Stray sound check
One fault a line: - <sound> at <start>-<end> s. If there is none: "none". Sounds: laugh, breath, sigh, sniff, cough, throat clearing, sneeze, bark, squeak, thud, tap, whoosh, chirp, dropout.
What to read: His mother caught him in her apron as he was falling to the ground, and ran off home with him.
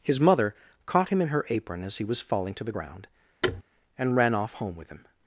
- thud at 3.4-3.6 s